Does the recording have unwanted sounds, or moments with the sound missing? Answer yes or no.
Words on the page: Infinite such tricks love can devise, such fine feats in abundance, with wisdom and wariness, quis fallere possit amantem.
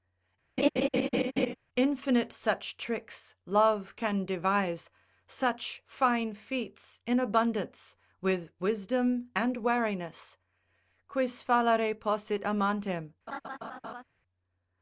yes